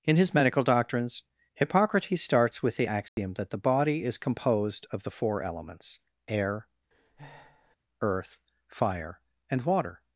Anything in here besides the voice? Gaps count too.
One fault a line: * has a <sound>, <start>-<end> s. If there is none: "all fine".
* has a dropout, 3.1-3.2 s
* has a breath, 6.9-7.8 s